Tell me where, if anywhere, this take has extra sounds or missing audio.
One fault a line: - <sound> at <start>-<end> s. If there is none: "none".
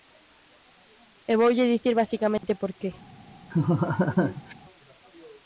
- dropout at 2.4-2.4 s
- laugh at 3.5-4.5 s